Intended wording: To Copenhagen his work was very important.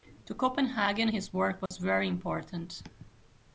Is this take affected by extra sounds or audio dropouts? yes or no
yes